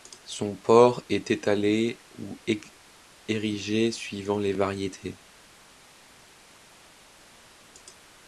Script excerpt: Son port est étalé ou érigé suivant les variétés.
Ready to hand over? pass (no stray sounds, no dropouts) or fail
pass